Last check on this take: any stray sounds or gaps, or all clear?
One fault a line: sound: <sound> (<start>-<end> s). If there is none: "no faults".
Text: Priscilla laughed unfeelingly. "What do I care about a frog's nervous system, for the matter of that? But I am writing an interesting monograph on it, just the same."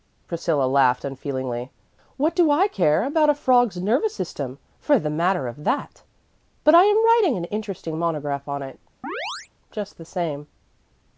sound: chirp (9.0-9.5 s)